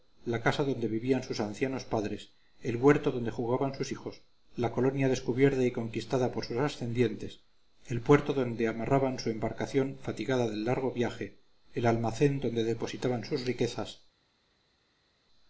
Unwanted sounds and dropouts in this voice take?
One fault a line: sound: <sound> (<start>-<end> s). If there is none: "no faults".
no faults